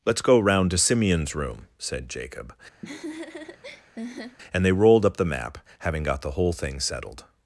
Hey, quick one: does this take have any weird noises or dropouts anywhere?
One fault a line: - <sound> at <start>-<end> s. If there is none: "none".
- laugh at 2.8-4.4 s